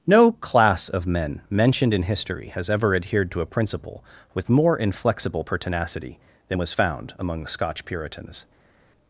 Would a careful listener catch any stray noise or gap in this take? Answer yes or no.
no